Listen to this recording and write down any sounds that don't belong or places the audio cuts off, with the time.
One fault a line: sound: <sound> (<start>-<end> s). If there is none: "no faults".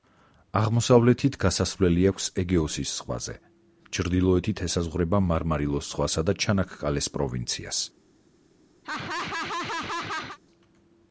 sound: laugh (8.8-10.4 s)